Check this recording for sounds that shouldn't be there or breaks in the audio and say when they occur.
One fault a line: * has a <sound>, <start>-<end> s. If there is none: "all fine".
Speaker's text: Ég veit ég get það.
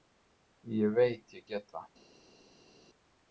all fine